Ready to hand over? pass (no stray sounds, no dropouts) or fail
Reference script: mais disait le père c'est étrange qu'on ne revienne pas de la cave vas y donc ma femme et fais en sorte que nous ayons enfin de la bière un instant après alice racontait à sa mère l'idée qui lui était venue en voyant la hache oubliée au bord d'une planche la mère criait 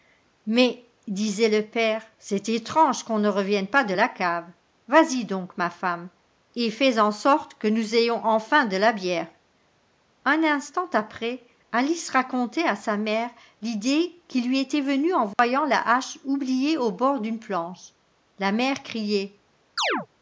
fail